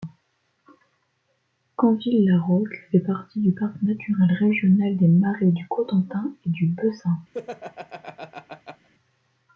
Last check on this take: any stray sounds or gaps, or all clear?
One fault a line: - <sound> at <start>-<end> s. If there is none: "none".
- laugh at 7.3-8.9 s